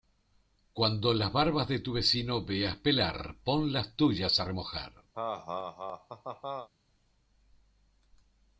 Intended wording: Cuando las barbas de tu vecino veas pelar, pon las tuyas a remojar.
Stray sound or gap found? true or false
true